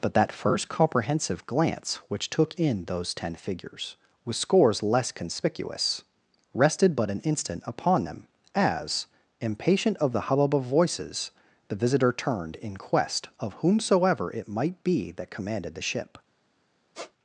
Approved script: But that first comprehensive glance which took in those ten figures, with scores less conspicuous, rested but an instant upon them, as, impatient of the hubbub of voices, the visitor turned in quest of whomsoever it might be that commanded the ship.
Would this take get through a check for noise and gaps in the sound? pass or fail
fail